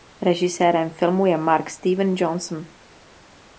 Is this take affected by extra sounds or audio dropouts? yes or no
no